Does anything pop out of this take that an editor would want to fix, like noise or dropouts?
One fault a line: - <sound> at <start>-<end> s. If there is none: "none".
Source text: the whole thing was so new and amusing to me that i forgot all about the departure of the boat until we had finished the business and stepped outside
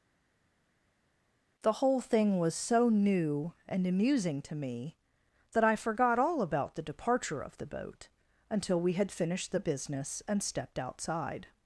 none